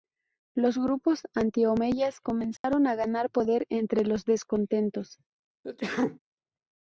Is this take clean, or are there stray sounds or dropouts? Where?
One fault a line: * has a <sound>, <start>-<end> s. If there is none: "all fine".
* has a dropout, 2.6-2.6 s
* has a sneeze, 5.6-6.2 s